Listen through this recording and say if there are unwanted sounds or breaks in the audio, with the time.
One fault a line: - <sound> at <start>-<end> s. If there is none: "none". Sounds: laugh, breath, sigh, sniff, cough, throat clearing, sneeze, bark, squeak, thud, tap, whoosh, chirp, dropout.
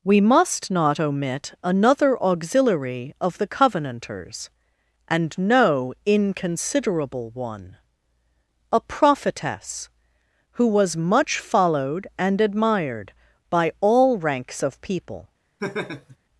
- laugh at 15.6-16.2 s